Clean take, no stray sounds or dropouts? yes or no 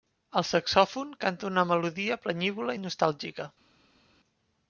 yes